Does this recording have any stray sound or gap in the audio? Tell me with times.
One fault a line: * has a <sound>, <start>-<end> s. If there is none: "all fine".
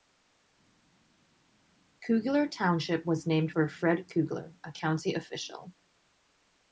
all fine